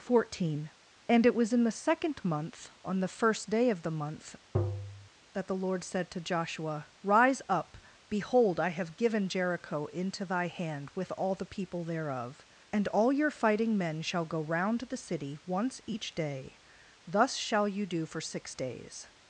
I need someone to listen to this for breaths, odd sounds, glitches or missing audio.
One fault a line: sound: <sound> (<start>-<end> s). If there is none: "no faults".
sound: tap (4.5-5.1 s)